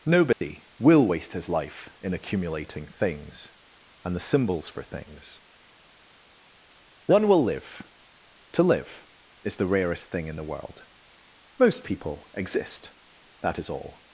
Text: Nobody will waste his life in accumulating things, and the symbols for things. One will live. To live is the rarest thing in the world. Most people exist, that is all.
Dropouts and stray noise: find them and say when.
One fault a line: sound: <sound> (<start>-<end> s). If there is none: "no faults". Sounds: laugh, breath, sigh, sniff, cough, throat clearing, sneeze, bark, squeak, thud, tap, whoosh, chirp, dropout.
sound: dropout (0.3-0.4 s)